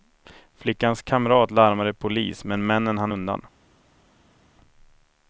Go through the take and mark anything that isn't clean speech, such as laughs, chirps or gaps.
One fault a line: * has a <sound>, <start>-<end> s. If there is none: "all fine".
all fine